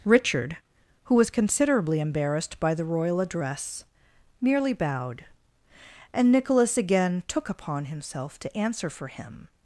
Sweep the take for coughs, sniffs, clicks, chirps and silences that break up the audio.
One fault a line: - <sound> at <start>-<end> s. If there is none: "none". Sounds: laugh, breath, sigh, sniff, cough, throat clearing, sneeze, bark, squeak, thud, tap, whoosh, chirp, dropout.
none